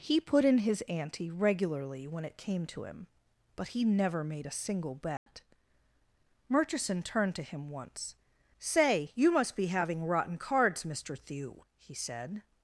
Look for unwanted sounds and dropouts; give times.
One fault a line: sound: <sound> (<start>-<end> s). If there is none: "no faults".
sound: dropout (5.2-5.3 s)